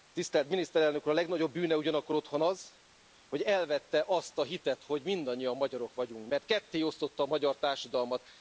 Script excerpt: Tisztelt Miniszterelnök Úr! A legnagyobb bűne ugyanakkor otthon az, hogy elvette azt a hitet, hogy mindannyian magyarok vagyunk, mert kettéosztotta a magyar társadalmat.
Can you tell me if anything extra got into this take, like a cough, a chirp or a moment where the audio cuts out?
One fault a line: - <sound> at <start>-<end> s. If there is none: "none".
none